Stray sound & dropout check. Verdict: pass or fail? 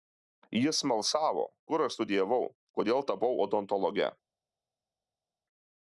pass